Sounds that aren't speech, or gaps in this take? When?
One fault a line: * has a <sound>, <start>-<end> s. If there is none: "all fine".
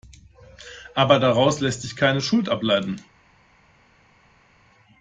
all fine